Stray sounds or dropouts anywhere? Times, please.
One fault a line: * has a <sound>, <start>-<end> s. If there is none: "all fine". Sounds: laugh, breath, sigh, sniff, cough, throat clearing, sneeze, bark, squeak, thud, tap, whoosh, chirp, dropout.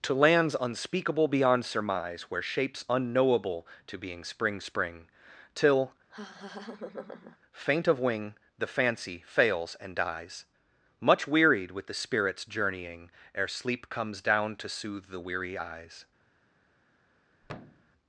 * has a laugh, 6.1-7.4 s
* has a thud, 17.4-17.9 s